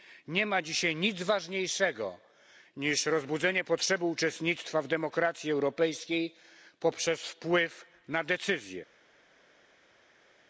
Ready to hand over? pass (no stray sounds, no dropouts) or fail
pass